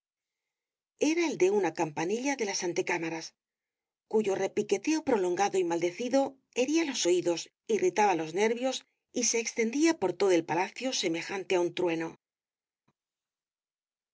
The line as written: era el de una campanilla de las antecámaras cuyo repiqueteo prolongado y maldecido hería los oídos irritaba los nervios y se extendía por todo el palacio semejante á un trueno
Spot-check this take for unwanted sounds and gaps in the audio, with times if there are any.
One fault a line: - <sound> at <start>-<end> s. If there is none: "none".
none